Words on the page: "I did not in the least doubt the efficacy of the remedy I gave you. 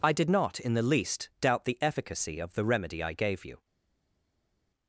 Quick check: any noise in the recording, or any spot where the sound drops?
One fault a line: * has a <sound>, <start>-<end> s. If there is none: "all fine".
all fine